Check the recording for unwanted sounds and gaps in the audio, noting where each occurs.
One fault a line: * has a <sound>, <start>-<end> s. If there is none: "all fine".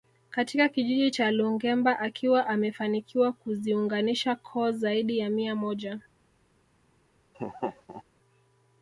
* has a laugh, 7.3-8.0 s